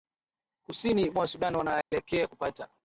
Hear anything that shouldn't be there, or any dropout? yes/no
yes